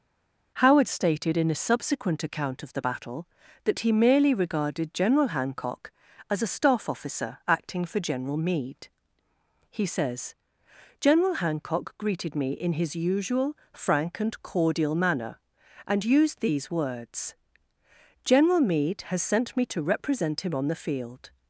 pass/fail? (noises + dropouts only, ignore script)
pass